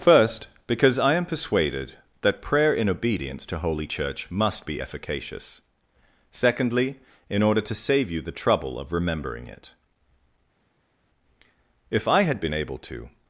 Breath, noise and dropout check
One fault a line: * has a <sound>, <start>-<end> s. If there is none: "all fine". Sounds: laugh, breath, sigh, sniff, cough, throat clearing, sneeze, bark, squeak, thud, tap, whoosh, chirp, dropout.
all fine